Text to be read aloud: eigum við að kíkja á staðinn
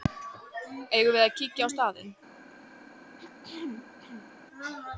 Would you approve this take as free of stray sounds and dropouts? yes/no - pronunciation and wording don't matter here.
no